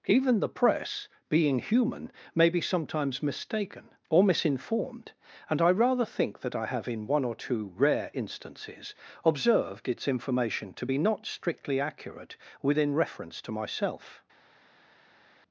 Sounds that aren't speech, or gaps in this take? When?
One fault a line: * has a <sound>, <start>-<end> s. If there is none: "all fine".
all fine